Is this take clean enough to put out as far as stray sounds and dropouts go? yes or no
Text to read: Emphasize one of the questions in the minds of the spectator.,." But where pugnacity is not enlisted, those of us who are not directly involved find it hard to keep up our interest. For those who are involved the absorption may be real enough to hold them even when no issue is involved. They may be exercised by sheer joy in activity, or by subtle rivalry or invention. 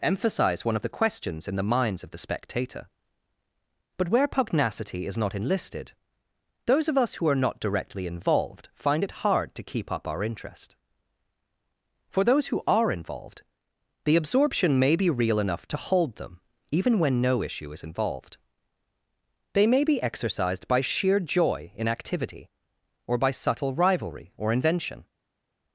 yes